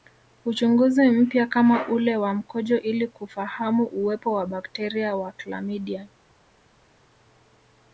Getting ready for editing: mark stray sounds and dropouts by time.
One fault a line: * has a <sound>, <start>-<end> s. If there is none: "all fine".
all fine